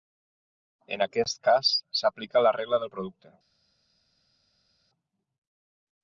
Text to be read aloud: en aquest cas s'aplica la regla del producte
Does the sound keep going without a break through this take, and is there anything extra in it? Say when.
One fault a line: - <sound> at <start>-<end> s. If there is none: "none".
none